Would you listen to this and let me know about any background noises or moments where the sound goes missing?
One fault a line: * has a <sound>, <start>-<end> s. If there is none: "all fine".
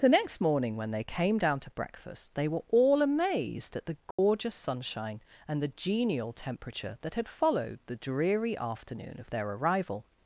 * has a dropout, 4.1-4.2 s